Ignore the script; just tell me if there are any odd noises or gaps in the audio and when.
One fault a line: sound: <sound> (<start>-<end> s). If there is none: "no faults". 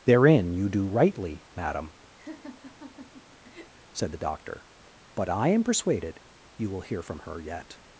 sound: laugh (2.2-3.7 s)